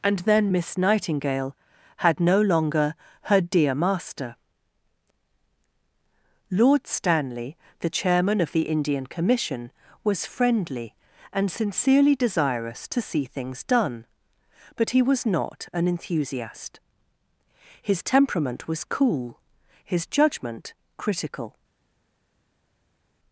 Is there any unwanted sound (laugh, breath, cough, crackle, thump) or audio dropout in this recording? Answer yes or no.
no